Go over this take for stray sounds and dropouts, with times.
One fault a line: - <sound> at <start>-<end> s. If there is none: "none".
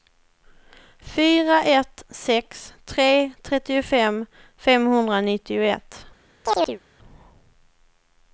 - chirp at 6.4-6.8 s